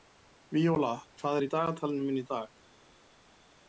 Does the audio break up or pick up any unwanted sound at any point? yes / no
no